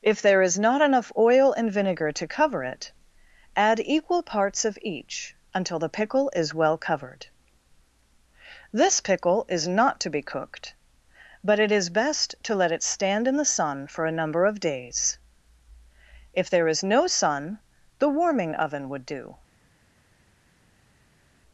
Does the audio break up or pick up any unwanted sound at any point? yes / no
no